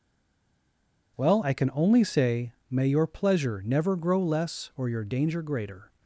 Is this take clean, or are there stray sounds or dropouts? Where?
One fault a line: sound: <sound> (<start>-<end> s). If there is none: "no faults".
no faults